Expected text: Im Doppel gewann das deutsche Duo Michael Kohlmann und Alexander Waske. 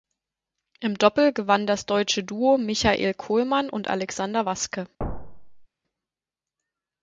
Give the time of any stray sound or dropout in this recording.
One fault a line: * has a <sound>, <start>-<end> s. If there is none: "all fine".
* has a thud, 5.0-5.7 s